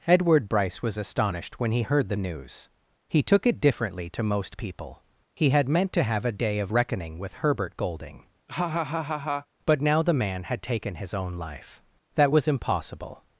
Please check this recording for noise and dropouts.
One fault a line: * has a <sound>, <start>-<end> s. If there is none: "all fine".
* has a laugh, 8.5-9.5 s